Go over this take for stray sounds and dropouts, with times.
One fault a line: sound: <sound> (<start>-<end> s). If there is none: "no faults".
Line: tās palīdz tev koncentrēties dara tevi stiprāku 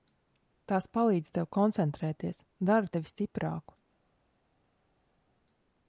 no faults